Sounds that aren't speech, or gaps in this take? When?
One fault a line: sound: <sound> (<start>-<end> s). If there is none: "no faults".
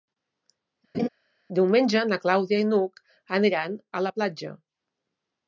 sound: laugh (0.9-1.1 s)